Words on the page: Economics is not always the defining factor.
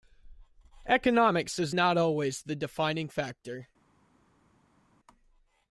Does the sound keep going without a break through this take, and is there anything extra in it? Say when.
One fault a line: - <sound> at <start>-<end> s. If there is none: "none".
none